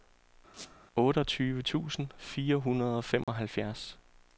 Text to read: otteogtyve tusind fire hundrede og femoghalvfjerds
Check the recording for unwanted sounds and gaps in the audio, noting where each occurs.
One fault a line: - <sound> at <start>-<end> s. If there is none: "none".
- squeak at 0.5-0.8 s
- dropout at 3.2-3.3 s